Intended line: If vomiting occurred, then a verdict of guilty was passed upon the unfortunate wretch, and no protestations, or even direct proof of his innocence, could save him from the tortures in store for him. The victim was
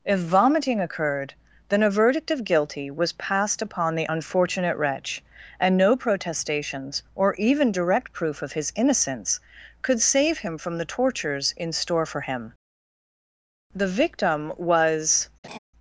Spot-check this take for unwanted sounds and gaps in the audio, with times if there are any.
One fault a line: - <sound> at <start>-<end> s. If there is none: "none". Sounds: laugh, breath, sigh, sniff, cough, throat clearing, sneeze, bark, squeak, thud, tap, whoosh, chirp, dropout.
- laugh at 15.4-15.6 s